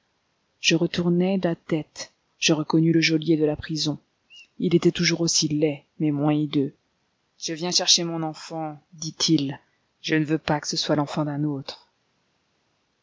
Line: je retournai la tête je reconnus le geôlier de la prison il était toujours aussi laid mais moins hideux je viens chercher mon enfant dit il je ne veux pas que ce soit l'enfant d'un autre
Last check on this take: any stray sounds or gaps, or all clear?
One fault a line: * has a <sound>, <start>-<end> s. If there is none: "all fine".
all fine